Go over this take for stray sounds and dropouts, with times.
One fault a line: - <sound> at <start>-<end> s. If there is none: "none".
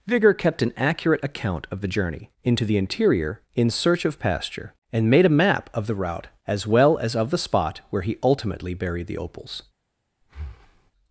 - breath at 10.2-10.9 s